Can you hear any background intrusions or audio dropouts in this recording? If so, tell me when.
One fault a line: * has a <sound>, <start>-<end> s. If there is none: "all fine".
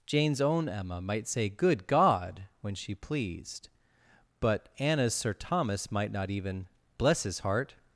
all fine